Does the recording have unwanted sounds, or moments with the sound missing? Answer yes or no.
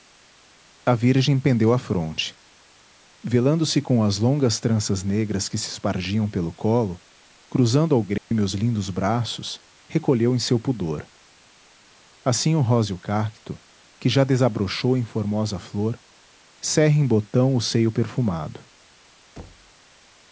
yes